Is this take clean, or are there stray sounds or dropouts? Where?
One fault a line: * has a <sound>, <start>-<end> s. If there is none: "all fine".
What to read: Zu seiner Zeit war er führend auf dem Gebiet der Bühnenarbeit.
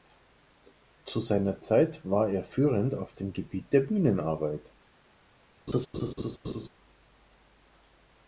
* has a laugh, 5.7-6.7 s